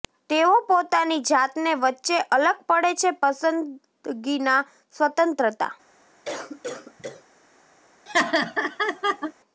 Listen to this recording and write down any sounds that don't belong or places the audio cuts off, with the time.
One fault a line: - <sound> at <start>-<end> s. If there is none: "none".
- cough at 6.2-7.2 s
- laugh at 8.1-9.3 s